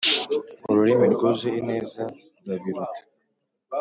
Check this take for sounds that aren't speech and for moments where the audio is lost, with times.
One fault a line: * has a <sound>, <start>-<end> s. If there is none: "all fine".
all fine